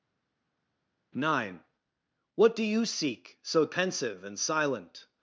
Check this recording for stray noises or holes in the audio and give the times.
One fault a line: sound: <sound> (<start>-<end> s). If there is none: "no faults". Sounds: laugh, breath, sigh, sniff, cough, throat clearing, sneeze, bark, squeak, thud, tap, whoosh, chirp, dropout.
no faults